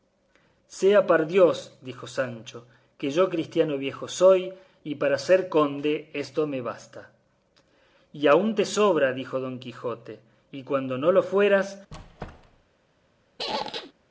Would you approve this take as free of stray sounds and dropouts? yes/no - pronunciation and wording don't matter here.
no